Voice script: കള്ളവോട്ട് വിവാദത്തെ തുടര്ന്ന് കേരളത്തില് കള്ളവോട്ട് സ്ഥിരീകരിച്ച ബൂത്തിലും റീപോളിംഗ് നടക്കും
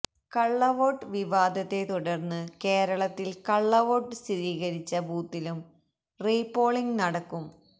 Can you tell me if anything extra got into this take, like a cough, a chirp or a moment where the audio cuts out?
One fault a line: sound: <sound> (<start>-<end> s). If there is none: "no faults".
no faults